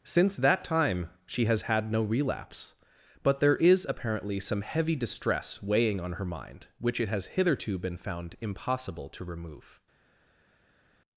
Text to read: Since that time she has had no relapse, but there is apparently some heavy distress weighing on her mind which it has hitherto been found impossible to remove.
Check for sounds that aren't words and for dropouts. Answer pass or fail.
pass